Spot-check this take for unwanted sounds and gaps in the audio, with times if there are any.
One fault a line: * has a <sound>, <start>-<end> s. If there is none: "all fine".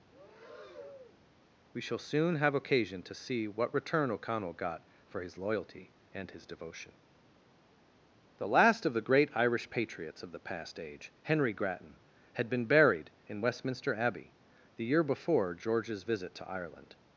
* has a breath, 0.1-1.2 s